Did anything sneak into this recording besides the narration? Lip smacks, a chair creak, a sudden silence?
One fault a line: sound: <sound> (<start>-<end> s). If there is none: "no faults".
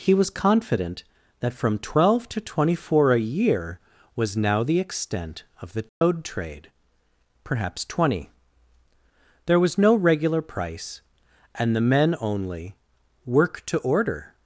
sound: dropout (5.9-6.0 s)